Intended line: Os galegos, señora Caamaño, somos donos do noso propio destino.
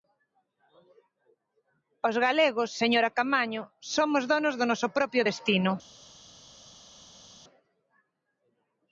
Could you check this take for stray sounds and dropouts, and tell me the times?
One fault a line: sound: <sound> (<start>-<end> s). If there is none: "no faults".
no faults